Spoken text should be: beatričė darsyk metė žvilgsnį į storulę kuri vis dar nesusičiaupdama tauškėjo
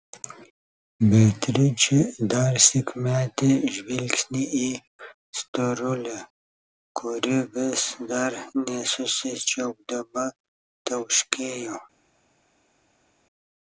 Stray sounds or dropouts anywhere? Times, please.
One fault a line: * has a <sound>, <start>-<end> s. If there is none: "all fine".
all fine